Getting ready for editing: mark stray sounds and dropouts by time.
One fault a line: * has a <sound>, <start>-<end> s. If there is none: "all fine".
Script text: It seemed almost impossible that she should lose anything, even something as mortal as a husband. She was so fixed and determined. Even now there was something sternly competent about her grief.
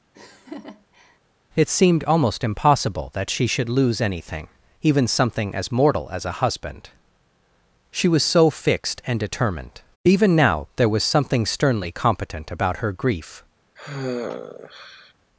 * has a laugh, 0.1-1.2 s
* has a sigh, 13.8-15.1 s